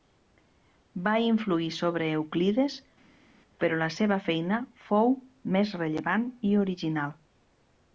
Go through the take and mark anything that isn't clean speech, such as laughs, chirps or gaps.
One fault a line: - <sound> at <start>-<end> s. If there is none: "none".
none